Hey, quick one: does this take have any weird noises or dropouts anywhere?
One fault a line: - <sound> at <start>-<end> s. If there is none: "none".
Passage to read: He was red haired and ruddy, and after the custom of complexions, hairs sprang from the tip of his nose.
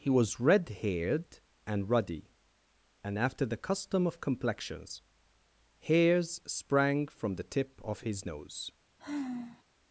- sigh at 9.0-9.6 s